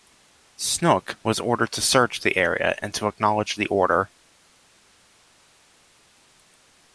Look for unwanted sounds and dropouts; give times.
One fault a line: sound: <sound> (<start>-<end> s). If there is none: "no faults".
no faults